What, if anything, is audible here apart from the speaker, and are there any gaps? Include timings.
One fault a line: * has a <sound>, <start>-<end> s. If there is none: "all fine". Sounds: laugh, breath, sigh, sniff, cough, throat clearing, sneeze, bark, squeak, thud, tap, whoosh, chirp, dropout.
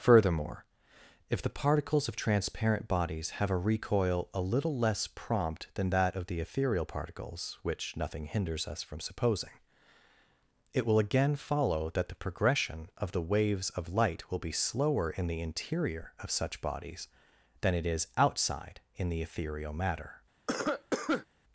* has a cough, 20.5-21.3 s